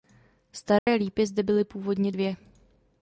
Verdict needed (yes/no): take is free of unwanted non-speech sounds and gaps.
no